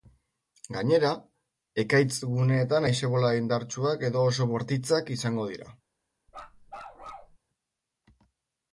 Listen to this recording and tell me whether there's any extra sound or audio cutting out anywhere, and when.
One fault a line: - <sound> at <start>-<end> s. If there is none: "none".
- bark at 6.3-7.4 s